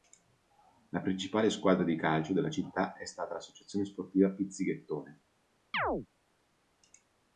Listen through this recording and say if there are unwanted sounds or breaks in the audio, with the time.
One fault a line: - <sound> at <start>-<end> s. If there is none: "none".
- chirp at 5.7-6.1 s